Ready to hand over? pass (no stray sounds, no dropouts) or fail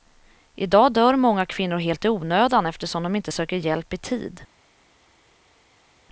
pass